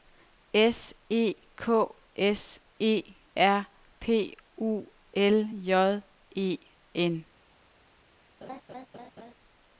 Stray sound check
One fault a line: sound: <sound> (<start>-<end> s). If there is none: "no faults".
sound: laugh (8.4-9.3 s)